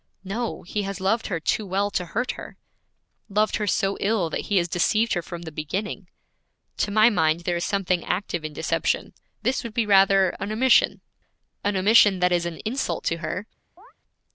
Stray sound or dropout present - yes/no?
yes